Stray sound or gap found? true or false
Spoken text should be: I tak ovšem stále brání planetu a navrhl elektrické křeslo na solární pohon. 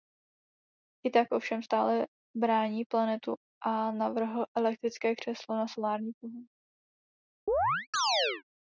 true